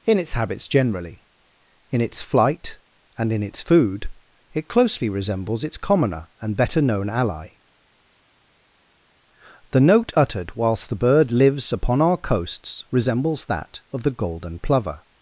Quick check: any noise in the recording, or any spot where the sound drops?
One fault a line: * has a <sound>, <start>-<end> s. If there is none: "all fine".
all fine